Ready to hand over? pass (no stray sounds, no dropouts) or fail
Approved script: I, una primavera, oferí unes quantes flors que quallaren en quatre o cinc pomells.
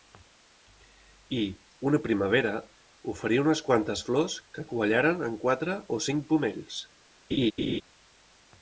fail